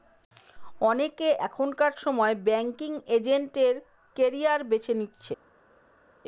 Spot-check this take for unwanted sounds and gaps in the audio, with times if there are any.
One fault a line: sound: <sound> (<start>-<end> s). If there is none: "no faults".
no faults